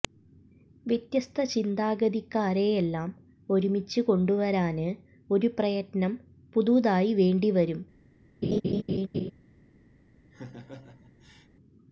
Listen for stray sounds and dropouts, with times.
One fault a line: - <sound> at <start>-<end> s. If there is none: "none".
- laugh at 8.4-9.3 s
- laugh at 10.3-11.5 s